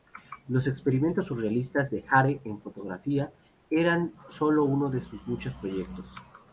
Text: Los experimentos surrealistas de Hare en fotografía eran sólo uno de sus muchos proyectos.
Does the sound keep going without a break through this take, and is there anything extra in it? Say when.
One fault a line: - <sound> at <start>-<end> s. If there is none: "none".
none